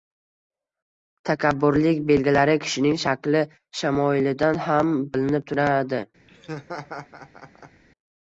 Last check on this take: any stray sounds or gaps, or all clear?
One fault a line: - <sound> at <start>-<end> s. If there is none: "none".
- laugh at 6.3-7.8 s